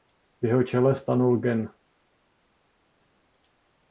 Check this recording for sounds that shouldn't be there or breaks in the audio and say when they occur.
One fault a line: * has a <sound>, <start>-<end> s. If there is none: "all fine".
all fine